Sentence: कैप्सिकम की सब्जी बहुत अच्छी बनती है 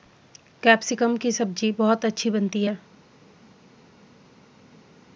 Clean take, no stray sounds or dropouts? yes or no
yes